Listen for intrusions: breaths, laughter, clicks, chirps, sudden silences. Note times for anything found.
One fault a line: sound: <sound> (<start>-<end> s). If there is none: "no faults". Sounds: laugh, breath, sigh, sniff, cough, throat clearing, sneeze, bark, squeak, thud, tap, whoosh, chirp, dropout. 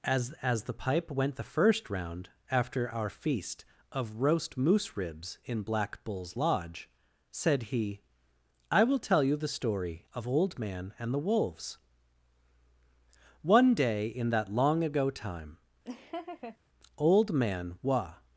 sound: laugh (15.8-16.6 s)